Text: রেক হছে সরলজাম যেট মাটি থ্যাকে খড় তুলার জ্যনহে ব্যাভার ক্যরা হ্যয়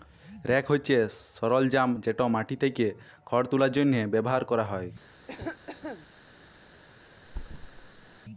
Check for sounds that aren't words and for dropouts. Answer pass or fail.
fail